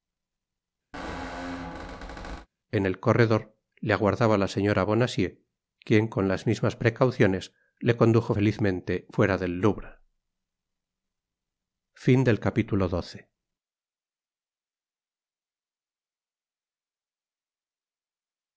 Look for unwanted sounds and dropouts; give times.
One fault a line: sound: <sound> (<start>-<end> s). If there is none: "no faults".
sound: squeak (0.9-2.5 s)